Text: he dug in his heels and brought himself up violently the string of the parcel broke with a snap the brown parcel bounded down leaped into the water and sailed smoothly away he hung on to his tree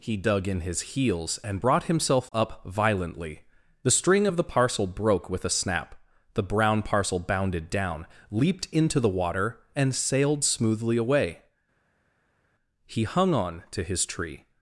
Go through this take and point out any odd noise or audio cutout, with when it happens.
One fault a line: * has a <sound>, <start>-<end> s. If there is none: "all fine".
all fine